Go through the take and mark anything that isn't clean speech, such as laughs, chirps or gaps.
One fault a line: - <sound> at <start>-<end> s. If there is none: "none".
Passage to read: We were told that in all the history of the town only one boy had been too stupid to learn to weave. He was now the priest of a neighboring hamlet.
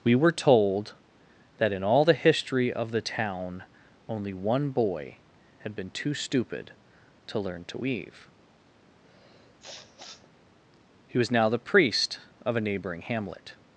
- sniff at 9.0-10.3 s